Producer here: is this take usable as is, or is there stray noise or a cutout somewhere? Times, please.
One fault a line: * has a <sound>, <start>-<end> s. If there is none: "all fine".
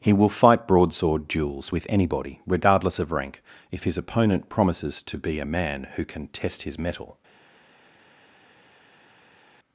all fine